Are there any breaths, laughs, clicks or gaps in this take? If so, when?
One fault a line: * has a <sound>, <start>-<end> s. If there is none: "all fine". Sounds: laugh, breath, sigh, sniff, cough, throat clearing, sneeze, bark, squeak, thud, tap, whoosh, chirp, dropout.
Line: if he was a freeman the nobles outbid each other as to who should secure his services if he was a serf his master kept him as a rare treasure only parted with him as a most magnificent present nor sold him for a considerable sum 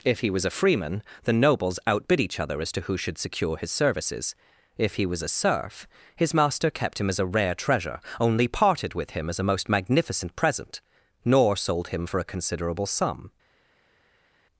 all fine